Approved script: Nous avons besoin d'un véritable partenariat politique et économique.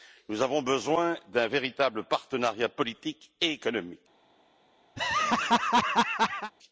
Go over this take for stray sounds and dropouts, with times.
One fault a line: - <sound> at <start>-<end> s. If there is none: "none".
- laugh at 5.0-6.5 s